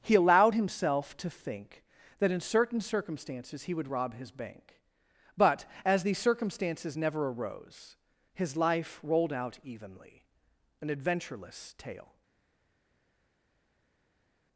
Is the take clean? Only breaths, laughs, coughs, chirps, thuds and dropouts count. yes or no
yes